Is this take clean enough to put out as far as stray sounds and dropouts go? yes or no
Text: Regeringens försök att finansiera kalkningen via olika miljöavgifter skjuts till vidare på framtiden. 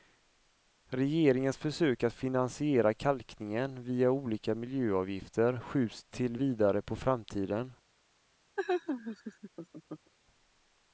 no